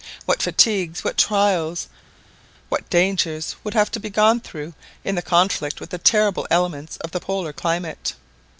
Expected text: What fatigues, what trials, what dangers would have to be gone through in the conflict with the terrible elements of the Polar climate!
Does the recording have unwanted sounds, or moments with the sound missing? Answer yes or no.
no